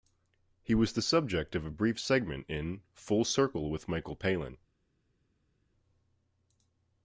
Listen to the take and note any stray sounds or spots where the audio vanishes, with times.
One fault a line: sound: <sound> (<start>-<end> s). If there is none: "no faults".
no faults